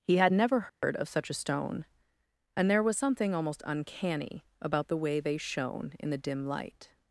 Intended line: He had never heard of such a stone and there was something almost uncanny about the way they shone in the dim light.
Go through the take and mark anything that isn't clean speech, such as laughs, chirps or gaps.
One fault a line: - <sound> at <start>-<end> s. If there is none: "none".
- dropout at 0.7-0.8 s